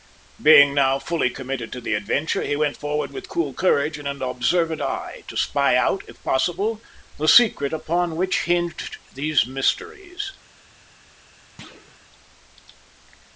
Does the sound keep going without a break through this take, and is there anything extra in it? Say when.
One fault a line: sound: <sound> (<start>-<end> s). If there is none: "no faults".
sound: thud (11.6-12.0 s)